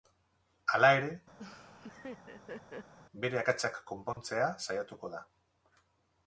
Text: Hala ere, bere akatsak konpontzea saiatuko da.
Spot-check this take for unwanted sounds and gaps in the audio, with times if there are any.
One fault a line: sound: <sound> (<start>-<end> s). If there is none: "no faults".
sound: laugh (1.4-2.9 s)
sound: dropout (4.1-4.2 s)